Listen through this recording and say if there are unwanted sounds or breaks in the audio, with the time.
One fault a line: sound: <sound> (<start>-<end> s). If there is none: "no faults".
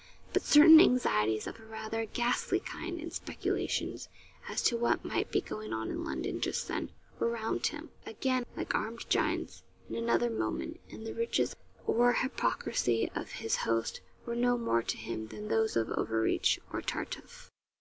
no faults